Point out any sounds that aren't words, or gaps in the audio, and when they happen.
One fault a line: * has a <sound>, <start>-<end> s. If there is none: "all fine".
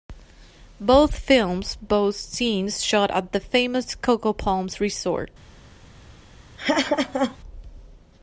* has a laugh, 6.6-7.4 s